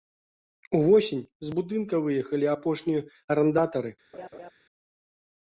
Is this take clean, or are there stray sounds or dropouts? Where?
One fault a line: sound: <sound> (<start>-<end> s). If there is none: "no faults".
sound: laugh (4.1-4.5 s)